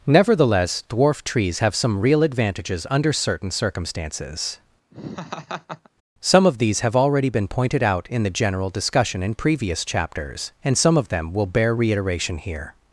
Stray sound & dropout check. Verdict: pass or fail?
fail